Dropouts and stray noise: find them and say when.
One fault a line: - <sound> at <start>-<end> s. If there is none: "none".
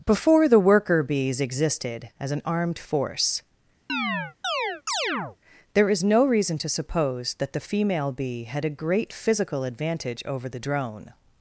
- chirp at 3.9-5.4 s